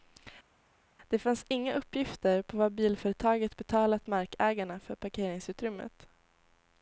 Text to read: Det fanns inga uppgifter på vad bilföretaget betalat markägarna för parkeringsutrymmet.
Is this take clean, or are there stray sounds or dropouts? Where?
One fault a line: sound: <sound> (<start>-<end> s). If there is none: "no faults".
no faults